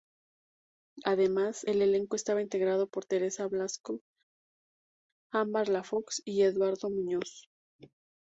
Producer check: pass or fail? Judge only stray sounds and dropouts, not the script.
pass